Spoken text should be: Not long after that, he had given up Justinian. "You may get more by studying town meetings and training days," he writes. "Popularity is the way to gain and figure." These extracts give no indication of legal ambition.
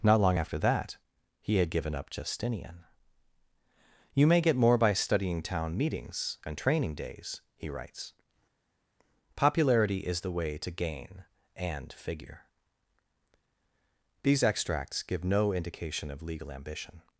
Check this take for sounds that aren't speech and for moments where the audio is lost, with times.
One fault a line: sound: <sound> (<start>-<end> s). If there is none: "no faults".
no faults